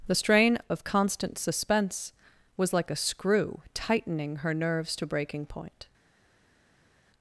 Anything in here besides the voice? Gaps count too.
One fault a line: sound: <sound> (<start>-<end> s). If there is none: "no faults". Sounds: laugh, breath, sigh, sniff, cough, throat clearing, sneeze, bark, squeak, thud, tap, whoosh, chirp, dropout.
no faults